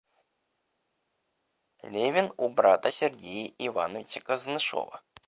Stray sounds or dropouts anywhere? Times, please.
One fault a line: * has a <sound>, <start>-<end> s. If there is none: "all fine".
all fine